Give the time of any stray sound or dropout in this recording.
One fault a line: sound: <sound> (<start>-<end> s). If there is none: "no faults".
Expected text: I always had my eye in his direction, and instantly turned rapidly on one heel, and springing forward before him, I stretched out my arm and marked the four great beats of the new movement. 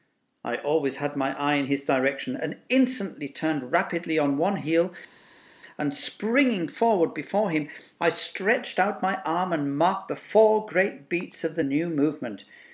no faults